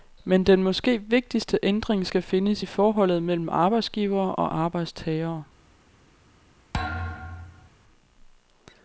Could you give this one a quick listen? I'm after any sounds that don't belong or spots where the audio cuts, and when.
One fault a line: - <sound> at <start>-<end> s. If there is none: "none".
- thud at 6.7-7.7 s